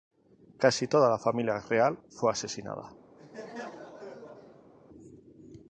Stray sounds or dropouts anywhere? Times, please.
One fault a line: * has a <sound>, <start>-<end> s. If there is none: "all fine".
* has a laugh, 3.2-4.7 s